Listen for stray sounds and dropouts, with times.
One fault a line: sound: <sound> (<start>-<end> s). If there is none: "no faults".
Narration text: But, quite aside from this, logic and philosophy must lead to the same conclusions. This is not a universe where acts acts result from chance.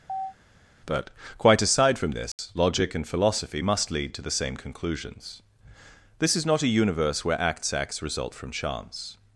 sound: chirp (0.1-0.3 s)
sound: dropout (2.3-2.4 s)